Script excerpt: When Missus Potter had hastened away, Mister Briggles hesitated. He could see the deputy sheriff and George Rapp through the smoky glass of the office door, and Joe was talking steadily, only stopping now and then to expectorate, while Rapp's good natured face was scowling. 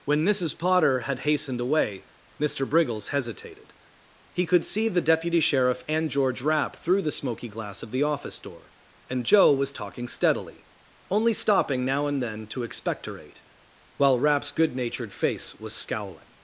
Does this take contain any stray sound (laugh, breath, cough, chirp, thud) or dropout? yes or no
no